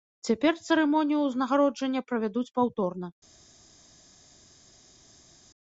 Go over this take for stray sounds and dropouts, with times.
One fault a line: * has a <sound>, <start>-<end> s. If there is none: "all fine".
all fine